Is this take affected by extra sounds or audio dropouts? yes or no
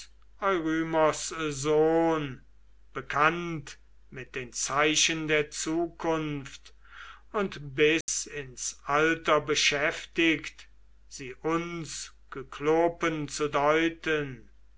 yes